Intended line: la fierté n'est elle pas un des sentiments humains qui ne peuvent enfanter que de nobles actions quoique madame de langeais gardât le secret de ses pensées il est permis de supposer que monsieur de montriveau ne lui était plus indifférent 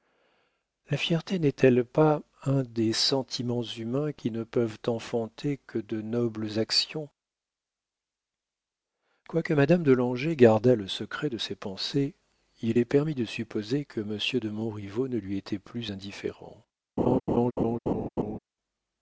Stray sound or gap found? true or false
true